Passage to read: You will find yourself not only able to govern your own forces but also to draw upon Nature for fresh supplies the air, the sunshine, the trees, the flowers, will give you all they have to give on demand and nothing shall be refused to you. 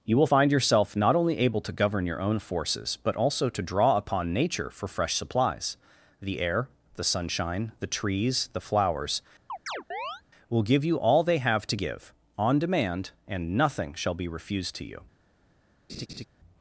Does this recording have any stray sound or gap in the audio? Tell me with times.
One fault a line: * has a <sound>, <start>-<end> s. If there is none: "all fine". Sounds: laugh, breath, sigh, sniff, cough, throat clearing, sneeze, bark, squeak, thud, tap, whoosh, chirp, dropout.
* has a chirp, 9.5-10.2 s
* has a laugh, 15.9-16.2 s